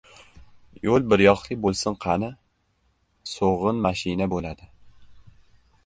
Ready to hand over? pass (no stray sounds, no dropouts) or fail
pass